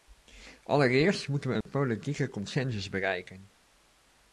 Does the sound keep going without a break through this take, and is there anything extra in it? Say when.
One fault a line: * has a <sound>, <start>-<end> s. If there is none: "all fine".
* has a dropout, 1.6-1.7 s